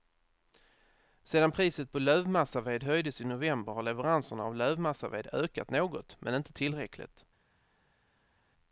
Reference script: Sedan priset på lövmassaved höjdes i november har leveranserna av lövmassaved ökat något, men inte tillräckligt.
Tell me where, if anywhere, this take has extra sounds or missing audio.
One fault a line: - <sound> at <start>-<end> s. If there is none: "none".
none